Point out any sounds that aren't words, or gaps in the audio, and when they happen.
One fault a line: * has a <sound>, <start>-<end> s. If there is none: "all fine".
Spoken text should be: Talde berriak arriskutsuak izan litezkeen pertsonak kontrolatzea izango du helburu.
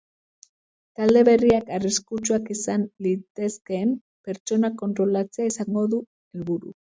all fine